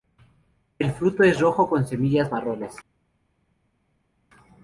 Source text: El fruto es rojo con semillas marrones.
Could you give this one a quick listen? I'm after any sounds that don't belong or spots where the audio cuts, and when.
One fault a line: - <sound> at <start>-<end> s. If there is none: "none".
none